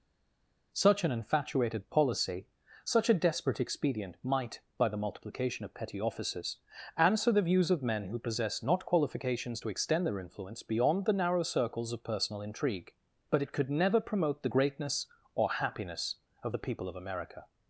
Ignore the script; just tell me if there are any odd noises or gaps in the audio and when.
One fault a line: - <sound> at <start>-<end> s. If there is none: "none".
none